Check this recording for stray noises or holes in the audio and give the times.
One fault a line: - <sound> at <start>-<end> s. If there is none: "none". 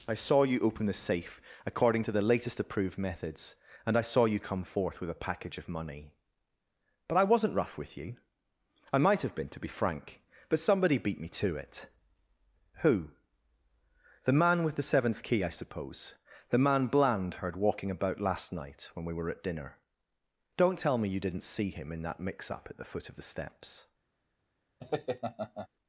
- laugh at 24.8-25.7 s